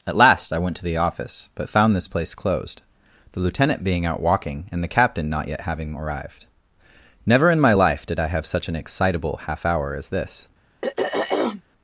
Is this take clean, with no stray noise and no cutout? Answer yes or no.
no